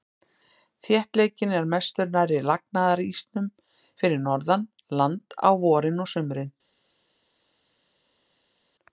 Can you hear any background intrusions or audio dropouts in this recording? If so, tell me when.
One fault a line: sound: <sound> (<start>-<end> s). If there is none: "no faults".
no faults